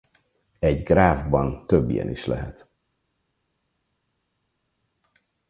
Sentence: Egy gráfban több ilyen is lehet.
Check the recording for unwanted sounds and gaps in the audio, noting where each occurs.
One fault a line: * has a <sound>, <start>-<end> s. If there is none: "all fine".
all fine